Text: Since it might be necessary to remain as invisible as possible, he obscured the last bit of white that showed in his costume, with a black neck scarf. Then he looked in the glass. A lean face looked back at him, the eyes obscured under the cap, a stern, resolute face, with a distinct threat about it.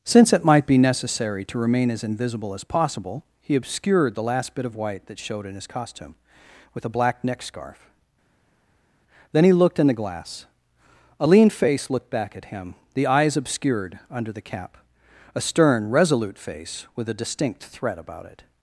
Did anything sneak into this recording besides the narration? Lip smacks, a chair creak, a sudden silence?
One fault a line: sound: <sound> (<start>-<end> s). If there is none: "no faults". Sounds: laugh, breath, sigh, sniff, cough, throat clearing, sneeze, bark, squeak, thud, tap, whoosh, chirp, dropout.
no faults